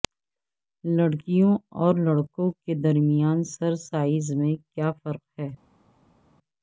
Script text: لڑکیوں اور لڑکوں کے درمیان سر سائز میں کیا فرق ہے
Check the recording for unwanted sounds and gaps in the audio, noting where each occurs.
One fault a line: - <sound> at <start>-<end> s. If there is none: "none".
none